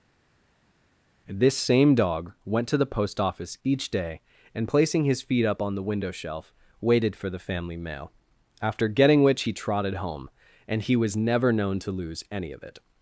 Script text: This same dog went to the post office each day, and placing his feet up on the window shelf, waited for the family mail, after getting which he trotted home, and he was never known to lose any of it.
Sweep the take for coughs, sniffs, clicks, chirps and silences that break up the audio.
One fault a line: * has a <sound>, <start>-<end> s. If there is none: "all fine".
all fine